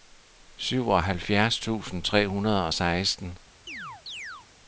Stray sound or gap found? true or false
true